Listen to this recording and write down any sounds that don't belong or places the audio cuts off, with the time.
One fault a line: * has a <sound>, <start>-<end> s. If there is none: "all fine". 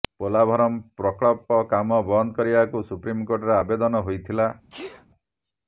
* has a sneeze, 4.7-5.1 s